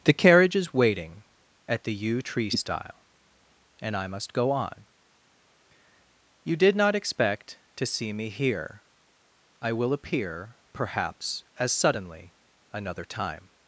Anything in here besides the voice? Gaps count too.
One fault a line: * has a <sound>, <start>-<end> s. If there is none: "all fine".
all fine